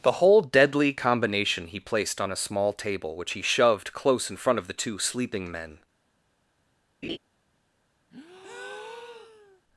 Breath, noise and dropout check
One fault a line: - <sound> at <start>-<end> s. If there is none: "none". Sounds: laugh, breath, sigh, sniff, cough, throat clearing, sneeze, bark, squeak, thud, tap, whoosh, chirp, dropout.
- laugh at 7.0-7.2 s
- breath at 8.1-9.6 s